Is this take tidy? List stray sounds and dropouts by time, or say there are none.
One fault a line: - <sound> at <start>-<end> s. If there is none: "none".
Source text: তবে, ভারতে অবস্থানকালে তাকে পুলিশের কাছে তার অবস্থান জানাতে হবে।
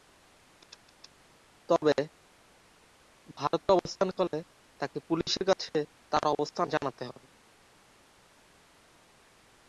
none